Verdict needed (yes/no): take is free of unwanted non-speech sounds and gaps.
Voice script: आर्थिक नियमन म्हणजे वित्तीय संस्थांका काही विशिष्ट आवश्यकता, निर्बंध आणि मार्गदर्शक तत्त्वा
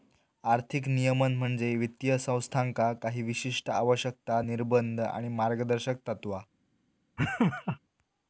no